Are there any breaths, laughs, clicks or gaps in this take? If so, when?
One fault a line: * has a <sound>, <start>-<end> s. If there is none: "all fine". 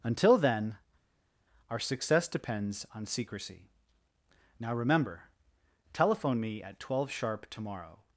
all fine